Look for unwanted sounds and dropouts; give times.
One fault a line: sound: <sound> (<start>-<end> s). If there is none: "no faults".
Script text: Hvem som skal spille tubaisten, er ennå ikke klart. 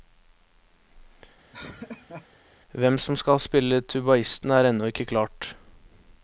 sound: laugh (1.5-2.3 s)